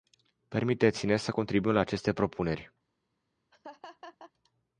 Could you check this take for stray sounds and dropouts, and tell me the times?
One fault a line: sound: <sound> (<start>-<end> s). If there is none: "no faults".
sound: laugh (3.5-4.3 s)